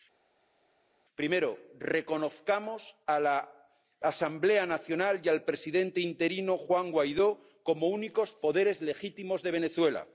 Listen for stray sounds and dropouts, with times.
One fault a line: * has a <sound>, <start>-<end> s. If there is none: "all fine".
all fine